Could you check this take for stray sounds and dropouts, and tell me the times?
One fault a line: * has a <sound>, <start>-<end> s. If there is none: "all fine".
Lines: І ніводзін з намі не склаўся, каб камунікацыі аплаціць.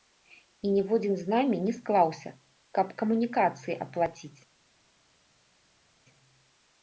all fine